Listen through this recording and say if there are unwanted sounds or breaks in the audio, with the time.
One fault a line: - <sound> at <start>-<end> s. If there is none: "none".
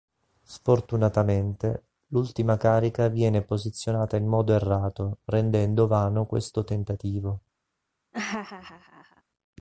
- laugh at 8.1-9.2 s